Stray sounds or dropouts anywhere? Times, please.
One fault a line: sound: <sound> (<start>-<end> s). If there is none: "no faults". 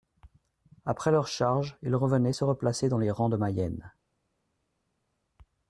no faults